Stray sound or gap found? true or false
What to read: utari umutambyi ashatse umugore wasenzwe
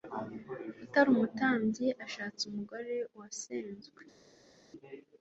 false